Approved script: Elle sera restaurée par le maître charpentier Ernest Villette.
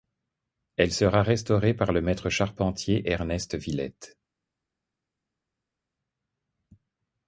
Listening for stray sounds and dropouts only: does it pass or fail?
pass